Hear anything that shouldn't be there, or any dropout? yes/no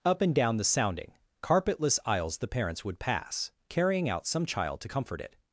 no